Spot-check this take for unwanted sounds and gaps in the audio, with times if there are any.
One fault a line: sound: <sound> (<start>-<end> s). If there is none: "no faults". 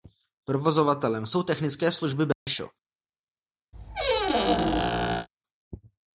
sound: dropout (2.3-2.5 s)
sound: squeak (3.7-5.3 s)